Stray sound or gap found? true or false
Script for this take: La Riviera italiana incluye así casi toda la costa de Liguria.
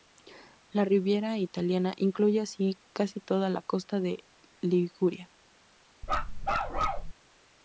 true